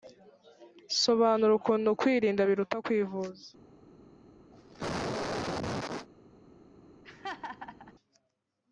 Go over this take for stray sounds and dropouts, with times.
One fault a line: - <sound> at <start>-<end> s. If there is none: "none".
- cough at 4.5-6.1 s
- laugh at 7.0-7.9 s